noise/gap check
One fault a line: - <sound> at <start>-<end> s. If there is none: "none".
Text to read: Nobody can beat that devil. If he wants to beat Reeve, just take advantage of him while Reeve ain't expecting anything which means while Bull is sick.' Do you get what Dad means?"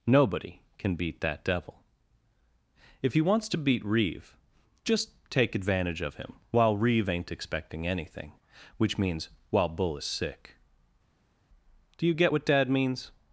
none